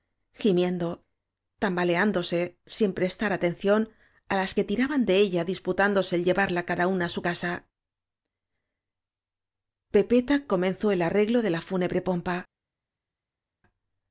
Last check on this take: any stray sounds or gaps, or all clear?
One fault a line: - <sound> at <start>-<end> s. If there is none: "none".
none